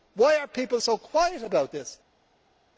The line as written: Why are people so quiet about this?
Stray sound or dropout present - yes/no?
no